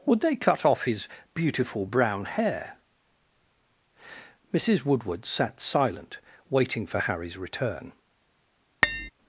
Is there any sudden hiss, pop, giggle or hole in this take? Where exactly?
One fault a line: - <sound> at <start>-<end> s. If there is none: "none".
- tap at 8.8-9.1 s